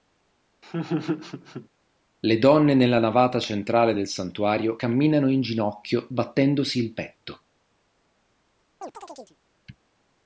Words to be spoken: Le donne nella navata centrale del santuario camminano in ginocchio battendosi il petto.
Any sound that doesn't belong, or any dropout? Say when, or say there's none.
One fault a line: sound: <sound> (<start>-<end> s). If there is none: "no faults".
sound: laugh (0.6-1.7 s)
sound: chirp (8.8-9.4 s)